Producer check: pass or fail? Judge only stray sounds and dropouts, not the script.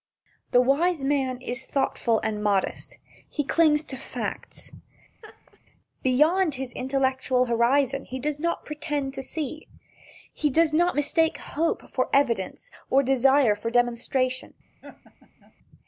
fail